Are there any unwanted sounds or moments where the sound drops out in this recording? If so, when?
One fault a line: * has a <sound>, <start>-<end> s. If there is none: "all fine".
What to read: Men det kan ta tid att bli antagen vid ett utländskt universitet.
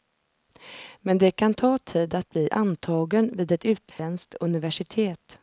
* has a dropout, 3.9-4.0 s